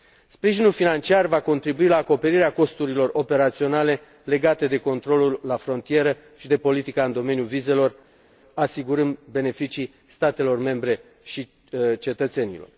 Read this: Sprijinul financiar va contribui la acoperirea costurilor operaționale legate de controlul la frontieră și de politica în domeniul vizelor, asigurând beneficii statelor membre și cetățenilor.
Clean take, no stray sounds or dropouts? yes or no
yes